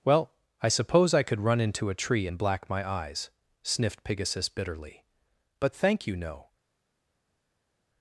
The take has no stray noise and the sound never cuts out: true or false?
true